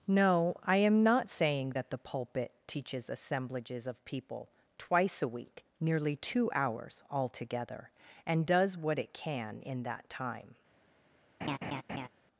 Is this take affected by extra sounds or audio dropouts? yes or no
yes